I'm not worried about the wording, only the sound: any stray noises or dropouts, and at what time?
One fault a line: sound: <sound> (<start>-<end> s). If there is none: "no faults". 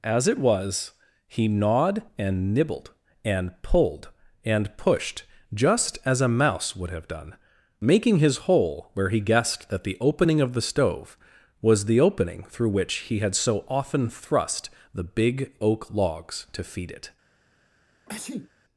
sound: sneeze (18.1-18.5 s)